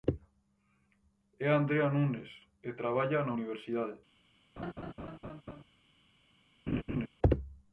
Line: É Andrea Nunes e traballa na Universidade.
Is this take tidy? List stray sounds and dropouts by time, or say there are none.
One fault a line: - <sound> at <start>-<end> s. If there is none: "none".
- laugh at 4.6-5.6 s
- laugh at 6.7-7.1 s